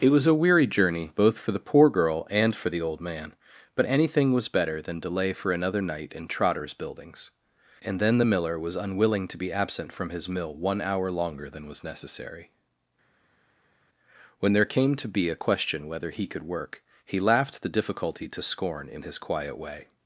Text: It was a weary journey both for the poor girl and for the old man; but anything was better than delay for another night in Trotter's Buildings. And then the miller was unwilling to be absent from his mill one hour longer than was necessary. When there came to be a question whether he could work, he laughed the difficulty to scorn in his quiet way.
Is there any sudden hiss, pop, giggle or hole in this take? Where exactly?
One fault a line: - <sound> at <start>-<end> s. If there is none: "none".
none